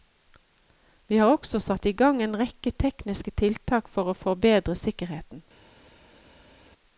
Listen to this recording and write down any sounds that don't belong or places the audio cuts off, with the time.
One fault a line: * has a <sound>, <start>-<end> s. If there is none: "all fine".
all fine